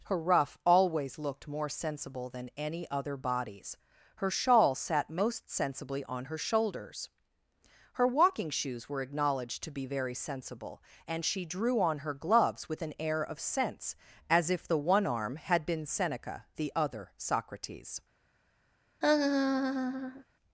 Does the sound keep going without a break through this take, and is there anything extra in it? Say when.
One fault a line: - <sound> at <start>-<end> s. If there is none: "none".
- laugh at 19.0-20.2 s